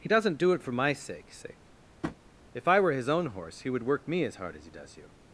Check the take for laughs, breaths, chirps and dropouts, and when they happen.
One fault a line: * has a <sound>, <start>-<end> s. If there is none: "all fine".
* has a tap, 2.0-2.2 s